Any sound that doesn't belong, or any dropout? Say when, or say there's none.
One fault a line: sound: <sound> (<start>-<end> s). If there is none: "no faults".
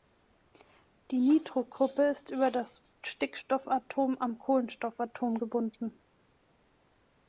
no faults